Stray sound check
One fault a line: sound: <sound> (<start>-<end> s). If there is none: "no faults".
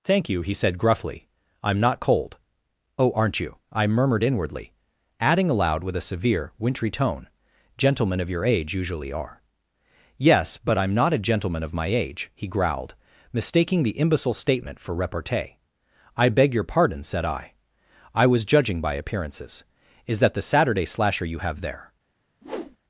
sound: whoosh (22.4-22.8 s)